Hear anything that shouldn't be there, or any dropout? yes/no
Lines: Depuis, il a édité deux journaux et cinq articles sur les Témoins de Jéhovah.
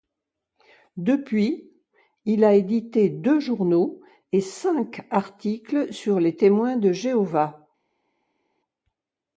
no